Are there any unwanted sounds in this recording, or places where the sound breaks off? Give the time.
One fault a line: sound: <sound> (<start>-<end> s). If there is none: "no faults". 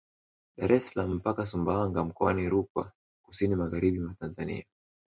no faults